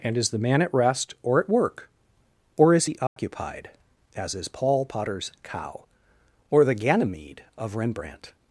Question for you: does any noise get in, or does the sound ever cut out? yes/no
yes